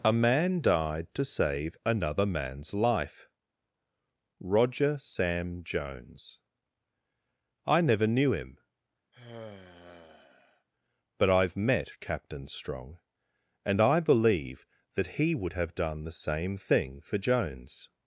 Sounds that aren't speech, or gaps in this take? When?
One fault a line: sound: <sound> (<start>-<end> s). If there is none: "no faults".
sound: sigh (9.1-10.7 s)